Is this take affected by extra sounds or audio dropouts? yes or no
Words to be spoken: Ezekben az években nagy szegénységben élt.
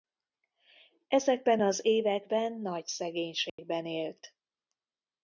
yes